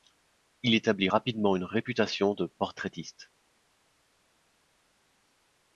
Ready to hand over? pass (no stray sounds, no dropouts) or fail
pass